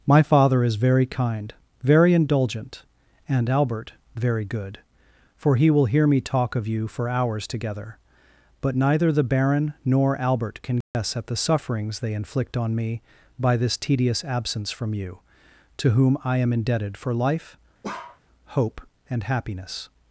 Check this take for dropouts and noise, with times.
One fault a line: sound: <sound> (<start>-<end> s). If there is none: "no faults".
sound: dropout (10.8-10.9 s)
sound: bark (17.8-18.2 s)